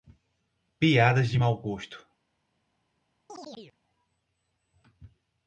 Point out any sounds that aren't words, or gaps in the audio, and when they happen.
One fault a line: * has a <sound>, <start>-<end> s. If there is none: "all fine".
* has a chirp, 3.3-3.8 s